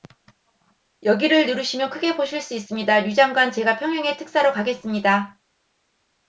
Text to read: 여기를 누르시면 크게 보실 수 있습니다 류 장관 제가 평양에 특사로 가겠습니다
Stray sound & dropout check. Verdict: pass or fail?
pass